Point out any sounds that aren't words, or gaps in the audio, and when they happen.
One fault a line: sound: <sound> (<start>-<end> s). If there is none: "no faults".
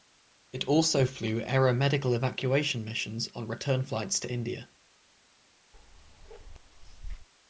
sound: bark (5.7-7.3 s)